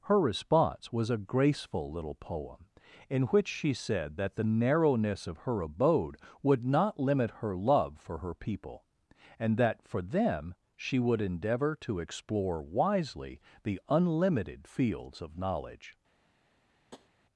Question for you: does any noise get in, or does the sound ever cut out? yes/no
yes